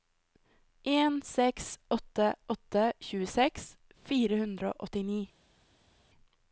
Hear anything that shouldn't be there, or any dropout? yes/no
no